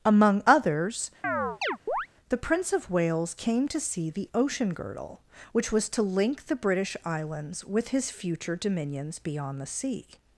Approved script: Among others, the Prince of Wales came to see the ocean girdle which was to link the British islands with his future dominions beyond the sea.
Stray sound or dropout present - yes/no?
yes